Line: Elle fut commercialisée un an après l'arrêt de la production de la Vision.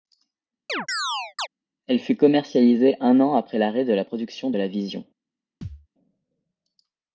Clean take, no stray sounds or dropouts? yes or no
no